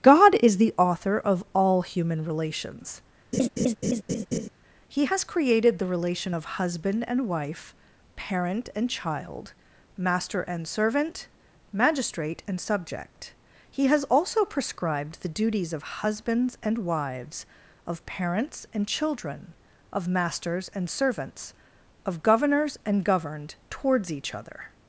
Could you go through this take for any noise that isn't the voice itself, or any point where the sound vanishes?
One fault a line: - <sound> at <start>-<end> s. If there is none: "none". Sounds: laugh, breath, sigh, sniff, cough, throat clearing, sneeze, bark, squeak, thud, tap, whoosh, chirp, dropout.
- laugh at 3.3-4.5 s